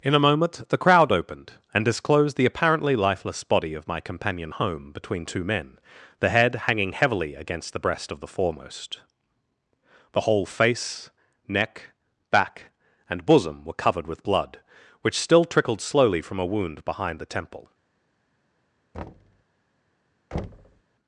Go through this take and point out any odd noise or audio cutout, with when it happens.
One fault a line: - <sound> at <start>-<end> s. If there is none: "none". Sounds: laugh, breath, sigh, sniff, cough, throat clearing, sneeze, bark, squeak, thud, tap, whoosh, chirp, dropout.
- thud at 18.9-19.4 s
- thud at 20.3-20.8 s